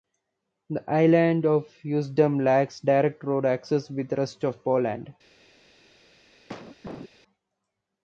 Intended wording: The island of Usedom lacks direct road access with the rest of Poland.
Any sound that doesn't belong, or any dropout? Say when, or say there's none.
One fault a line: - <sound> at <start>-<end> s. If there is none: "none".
- cough at 6.5-7.1 s